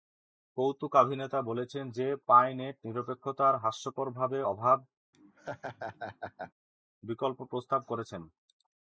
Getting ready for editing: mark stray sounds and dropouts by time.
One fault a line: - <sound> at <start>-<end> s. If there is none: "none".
- laugh at 5.1-6.5 s